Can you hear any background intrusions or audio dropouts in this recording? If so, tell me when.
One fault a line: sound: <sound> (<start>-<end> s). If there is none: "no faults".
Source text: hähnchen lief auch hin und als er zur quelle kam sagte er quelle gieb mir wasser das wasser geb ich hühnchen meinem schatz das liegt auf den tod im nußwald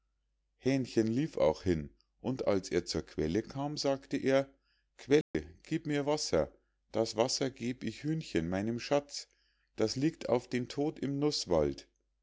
sound: dropout (5.2-5.3 s)